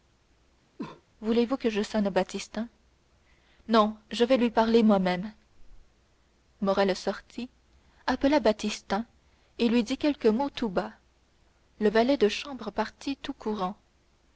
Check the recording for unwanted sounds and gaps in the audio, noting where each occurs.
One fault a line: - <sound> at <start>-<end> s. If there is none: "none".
- cough at 0.8-1.0 s